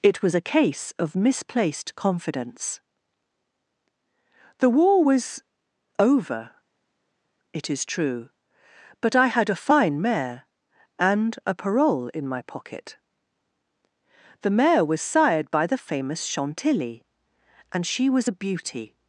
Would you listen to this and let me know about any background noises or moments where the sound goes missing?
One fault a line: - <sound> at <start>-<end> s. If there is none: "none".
none